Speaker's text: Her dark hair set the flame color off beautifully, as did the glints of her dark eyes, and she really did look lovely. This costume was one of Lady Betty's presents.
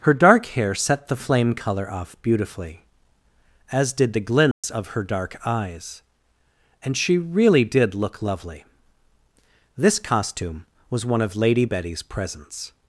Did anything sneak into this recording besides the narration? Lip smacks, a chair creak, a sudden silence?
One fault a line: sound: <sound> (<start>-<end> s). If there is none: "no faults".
sound: dropout (4.5-4.6 s)